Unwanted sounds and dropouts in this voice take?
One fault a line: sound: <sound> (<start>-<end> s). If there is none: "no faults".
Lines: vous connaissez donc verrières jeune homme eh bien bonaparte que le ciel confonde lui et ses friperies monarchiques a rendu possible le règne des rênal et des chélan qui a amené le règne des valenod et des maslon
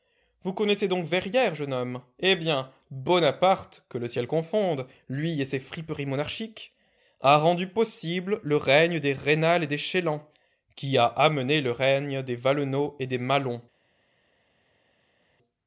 no faults